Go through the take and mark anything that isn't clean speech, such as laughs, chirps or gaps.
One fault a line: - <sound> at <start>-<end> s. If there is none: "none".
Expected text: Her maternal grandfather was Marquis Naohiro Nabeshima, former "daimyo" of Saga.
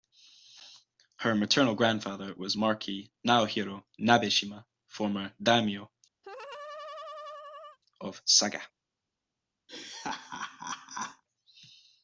- laugh at 6.2-7.8 s
- laugh at 9.7-11.2 s